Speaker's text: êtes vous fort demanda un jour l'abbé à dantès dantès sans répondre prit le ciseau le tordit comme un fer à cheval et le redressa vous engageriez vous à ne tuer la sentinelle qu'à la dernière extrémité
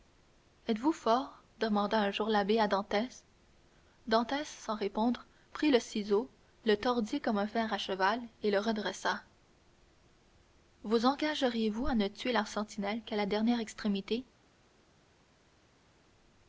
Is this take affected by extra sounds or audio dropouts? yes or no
no